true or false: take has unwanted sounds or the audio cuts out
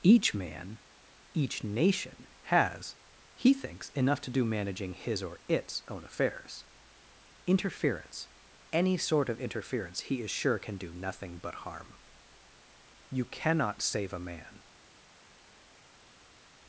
false